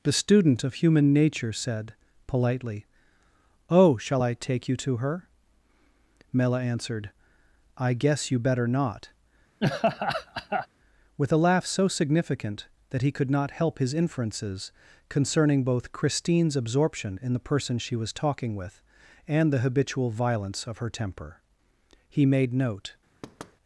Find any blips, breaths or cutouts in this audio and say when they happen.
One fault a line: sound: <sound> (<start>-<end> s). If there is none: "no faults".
sound: laugh (9.6-10.7 s)
sound: thud (23.2-23.6 s)